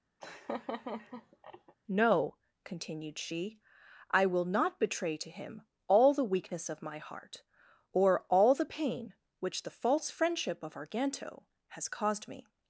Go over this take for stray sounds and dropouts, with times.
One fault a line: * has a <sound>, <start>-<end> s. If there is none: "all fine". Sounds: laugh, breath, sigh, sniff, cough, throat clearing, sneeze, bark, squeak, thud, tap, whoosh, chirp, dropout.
* has a laugh, 0.2-1.7 s